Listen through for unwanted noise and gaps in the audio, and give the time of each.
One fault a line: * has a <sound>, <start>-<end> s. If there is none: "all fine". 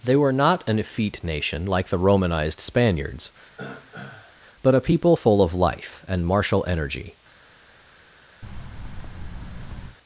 * has a throat clearing, 3.6-4.4 s
* has a thud, 8.4-10.0 s